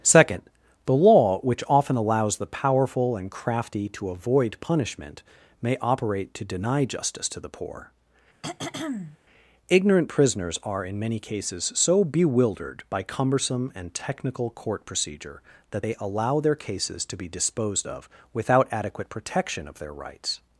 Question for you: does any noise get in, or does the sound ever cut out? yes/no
yes